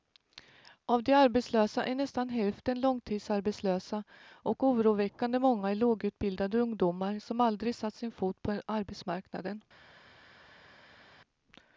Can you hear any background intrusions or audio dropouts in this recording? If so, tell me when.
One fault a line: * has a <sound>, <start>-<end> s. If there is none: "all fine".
all fine